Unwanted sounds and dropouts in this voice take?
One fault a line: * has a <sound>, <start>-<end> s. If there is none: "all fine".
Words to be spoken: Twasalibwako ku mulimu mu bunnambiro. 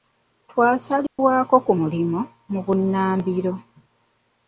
* has a dropout, 1.1-1.2 s